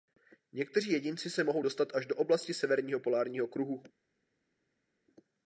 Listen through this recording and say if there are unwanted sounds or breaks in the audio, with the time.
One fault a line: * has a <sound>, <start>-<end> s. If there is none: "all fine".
all fine